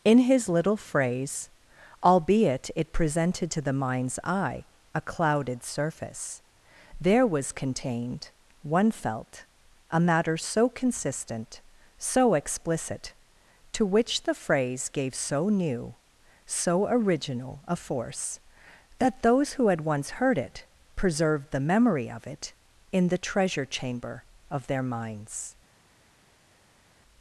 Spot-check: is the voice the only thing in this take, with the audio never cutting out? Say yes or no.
yes